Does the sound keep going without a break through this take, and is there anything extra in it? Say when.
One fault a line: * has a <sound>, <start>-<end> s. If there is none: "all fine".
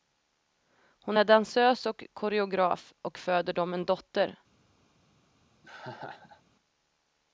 * has a laugh, 5.6-6.4 s